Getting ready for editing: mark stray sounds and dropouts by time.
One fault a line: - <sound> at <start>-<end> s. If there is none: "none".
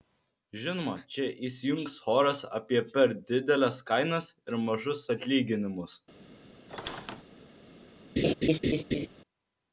- squeak at 6.7-7.2 s
- laugh at 8.2-9.1 s